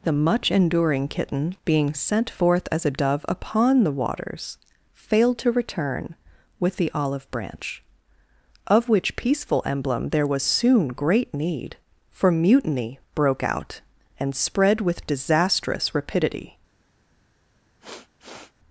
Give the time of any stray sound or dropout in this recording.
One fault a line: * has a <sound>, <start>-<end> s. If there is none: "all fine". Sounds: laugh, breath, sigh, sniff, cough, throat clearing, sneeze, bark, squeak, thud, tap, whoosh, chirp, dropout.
* has a sniff, 17.8-18.5 s